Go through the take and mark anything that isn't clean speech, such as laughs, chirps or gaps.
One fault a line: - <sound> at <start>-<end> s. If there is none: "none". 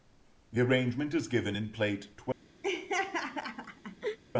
- laugh at 2.6-4.2 s